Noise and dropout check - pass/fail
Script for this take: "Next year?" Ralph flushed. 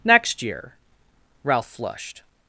pass